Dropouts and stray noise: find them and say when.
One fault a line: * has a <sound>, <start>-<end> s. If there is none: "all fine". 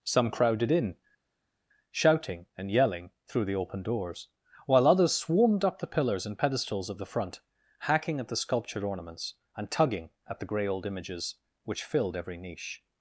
all fine